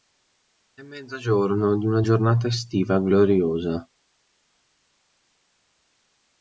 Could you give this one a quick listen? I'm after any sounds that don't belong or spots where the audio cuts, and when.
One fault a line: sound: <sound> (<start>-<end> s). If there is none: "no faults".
no faults